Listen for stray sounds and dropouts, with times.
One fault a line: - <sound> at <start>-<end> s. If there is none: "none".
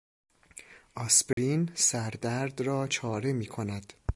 - dropout at 1.3-1.4 s